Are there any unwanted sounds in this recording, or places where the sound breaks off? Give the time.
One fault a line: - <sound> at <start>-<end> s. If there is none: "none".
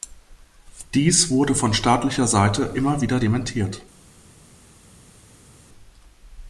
none